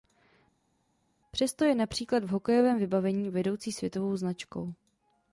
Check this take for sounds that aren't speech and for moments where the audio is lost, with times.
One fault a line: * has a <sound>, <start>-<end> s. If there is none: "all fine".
all fine